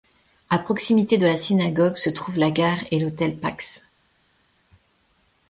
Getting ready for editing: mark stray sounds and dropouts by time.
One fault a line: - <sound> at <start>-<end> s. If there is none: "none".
none